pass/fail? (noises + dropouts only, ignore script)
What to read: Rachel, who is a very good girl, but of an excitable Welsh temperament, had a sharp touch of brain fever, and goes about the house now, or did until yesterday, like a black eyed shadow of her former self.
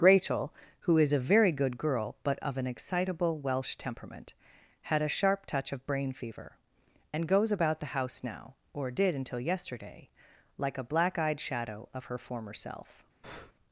fail